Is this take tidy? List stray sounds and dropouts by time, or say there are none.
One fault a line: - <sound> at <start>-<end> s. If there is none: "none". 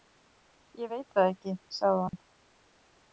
- dropout at 2.1-2.1 s